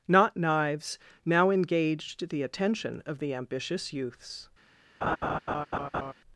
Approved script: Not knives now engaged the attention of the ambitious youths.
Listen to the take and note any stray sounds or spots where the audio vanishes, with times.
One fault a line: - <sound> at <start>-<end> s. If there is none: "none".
- laugh at 5.0-6.1 s